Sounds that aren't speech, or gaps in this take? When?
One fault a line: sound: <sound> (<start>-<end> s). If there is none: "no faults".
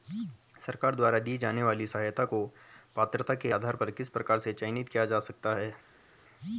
no faults